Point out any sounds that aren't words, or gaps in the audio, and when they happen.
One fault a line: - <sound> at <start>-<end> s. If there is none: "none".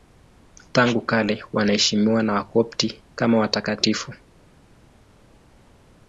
none